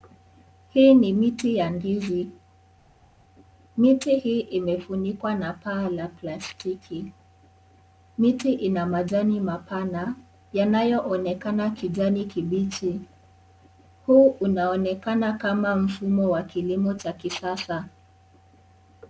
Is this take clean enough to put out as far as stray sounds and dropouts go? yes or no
yes